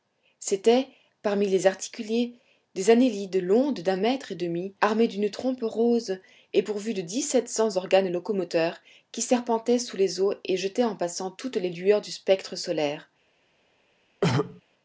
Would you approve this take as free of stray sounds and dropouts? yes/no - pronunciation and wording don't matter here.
no